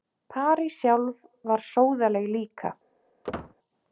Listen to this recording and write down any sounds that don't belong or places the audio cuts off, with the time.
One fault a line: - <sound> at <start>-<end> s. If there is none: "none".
- squeak at 3.2-3.6 s